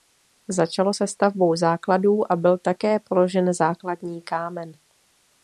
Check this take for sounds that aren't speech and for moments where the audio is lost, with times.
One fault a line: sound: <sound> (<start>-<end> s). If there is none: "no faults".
no faults